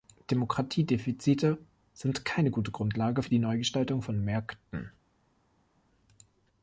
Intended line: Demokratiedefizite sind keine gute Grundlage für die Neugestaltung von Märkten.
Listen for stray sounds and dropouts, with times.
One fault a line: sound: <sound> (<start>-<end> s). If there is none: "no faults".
no faults